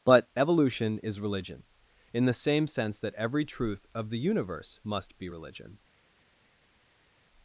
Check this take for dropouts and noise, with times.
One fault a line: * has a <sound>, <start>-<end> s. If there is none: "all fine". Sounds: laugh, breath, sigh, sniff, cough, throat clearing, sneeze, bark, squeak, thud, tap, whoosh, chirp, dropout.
all fine